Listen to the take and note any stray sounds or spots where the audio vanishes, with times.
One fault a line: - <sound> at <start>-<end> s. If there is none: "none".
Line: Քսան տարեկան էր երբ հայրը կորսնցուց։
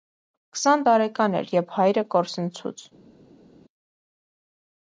none